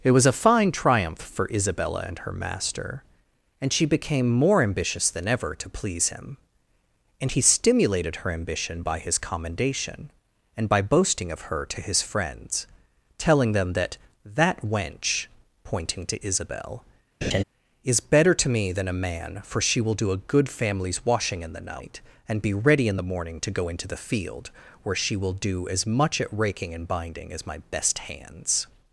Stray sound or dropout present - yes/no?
yes